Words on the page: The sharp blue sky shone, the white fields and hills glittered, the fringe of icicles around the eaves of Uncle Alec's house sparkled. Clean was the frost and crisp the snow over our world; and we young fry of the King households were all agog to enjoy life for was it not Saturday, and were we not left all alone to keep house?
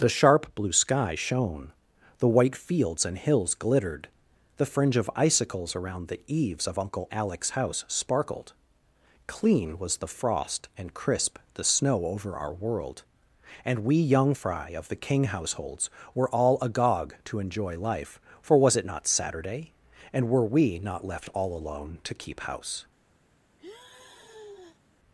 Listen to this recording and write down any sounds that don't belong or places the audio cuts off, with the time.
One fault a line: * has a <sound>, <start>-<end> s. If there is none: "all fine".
* has a sigh, 23.6-24.8 s